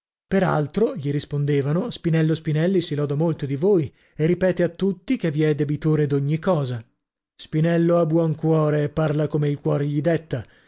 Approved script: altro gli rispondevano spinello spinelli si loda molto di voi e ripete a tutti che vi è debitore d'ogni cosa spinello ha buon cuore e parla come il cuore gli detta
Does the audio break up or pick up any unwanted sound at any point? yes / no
no